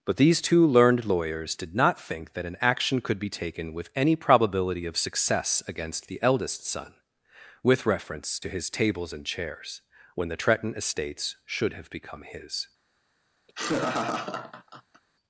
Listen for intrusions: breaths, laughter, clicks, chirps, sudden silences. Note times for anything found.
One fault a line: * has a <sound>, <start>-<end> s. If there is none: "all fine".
* has a laugh, 13.5-15.0 s